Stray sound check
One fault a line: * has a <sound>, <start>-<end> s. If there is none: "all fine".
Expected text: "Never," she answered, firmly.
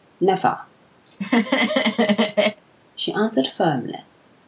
* has a laugh, 1.1-2.6 s